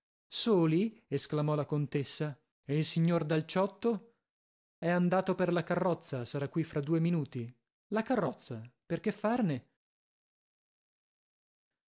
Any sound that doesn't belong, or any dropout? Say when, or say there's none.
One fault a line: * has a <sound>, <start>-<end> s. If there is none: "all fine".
all fine